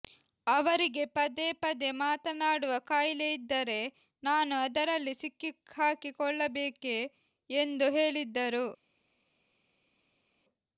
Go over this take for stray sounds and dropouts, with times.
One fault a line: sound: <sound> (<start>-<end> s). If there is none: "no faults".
no faults